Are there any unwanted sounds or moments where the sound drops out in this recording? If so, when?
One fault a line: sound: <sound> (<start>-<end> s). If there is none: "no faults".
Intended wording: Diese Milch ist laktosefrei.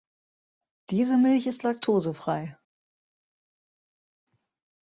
no faults